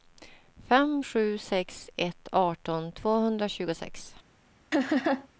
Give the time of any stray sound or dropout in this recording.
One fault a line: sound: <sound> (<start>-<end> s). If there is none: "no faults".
sound: laugh (4.7-5.3 s)